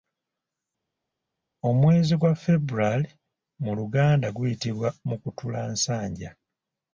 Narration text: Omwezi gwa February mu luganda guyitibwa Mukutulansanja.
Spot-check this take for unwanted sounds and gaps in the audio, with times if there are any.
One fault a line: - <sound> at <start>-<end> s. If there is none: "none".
none